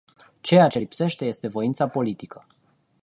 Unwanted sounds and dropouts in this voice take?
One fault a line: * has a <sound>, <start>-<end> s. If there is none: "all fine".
all fine